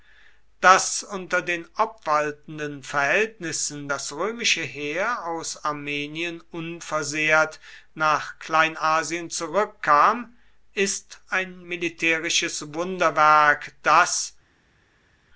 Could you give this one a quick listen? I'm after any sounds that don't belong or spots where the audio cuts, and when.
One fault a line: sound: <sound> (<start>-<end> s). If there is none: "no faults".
no faults